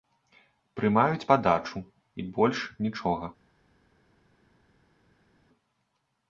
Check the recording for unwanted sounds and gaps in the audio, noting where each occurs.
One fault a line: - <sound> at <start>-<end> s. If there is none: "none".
none